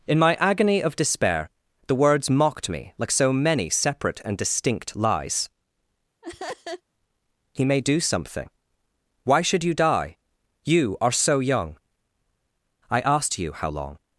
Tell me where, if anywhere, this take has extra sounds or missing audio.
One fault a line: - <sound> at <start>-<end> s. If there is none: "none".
- laugh at 6.2-6.8 s